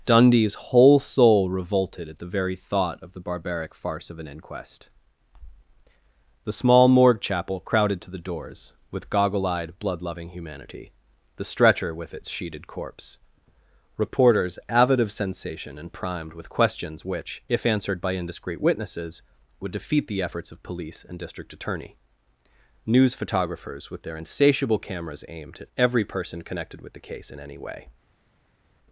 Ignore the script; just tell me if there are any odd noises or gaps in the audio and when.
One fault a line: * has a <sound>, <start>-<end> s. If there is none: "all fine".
all fine